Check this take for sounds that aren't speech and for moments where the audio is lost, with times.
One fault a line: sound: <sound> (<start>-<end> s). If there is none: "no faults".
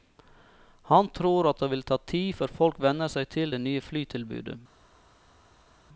no faults